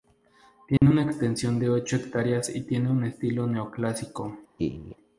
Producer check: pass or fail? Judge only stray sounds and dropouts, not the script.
fail